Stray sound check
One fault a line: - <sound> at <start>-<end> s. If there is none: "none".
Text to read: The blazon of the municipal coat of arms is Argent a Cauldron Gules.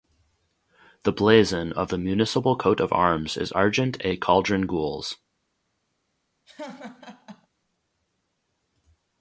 - laugh at 6.5-7.5 s